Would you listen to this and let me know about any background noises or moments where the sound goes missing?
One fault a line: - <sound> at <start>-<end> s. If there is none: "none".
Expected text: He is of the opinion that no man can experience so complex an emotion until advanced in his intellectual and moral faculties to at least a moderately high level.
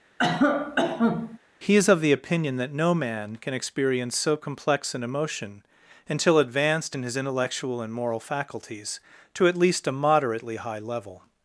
- cough at 0.2-1.4 s